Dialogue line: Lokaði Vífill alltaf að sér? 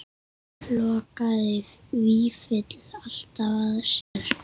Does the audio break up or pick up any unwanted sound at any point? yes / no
yes